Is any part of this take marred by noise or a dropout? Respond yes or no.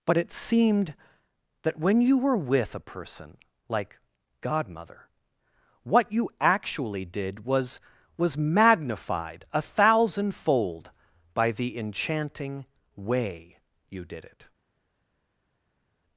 no